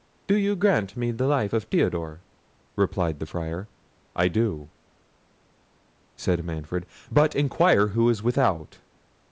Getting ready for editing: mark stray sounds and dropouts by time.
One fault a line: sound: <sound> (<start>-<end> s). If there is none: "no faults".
no faults